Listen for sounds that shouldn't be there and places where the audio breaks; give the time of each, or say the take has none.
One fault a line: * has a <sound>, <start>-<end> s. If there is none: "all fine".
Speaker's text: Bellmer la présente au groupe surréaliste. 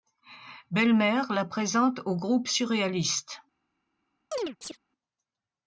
* has a chirp, 4.3-4.8 s